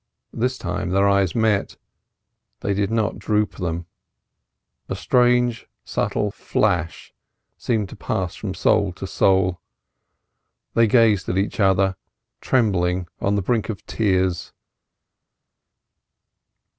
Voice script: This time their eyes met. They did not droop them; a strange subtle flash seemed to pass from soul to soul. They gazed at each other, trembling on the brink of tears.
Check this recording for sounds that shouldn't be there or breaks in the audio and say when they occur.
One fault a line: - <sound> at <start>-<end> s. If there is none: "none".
none